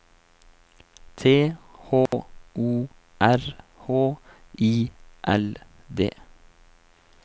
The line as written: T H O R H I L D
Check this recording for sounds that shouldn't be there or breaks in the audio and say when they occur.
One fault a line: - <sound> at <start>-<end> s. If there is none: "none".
- dropout at 2.1-2.1 s